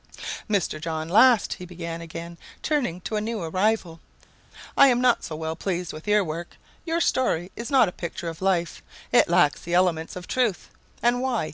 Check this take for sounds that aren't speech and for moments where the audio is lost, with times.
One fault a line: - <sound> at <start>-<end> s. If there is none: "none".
none